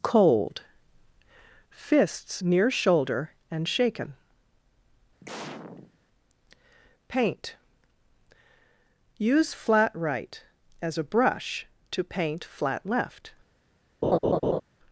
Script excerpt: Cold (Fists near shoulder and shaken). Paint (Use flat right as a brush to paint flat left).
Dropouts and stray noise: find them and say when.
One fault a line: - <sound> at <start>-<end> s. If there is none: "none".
- sneeze at 5.2-6.0 s
- laugh at 14.0-14.6 s